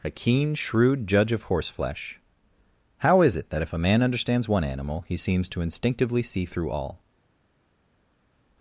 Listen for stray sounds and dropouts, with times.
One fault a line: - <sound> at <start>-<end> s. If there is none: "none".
none